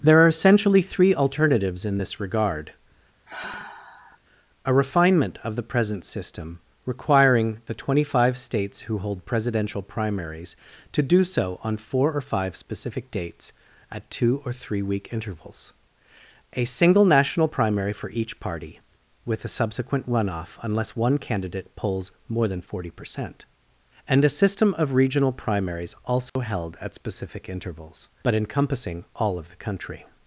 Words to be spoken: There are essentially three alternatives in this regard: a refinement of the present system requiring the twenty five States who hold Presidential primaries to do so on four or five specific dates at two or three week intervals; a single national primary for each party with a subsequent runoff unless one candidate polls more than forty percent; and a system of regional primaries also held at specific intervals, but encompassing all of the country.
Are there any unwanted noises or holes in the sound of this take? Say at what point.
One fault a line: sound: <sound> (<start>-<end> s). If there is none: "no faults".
sound: sigh (3.2-4.2 s)
sound: dropout (26.3-26.4 s)